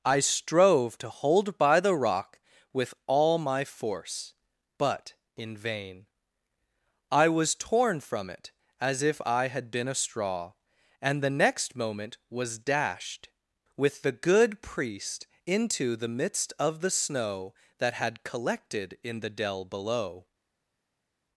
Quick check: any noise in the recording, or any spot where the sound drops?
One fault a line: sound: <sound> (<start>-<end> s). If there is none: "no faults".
no faults